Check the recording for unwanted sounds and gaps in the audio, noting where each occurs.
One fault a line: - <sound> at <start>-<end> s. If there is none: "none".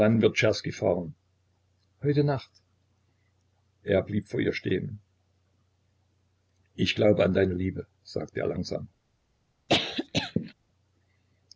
- cough at 9.7-10.5 s